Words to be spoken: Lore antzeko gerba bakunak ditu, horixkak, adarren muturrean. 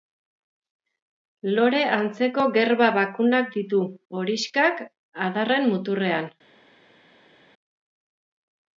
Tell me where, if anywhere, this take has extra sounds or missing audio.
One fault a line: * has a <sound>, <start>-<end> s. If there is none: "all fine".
all fine